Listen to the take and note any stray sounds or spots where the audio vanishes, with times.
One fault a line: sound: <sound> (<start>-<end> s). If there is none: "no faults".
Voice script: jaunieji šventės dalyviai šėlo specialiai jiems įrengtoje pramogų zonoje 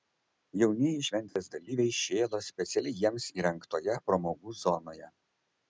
sound: dropout (1.3-1.4 s)